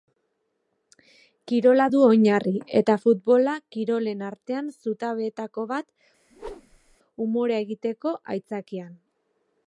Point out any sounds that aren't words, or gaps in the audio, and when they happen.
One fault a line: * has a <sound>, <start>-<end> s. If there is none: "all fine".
* has a whoosh, 6.3-7.0 s